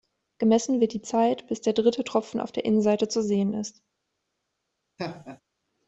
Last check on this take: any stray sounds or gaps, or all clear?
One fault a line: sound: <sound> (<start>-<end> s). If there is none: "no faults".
sound: laugh (5.0-5.4 s)